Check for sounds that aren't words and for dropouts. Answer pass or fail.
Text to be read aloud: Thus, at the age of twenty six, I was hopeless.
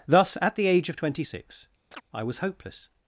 fail